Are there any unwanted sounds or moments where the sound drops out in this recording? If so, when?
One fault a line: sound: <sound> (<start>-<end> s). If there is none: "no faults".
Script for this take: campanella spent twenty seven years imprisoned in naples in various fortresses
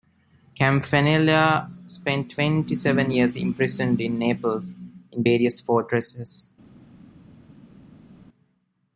no faults